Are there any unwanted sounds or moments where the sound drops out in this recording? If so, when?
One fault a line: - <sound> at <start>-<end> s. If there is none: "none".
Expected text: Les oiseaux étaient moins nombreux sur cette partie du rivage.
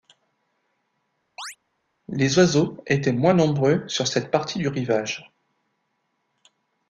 - chirp at 1.4-1.6 s